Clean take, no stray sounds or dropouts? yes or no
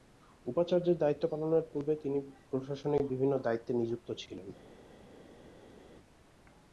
yes